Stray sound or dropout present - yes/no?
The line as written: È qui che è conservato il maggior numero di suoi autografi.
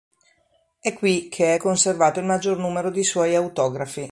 no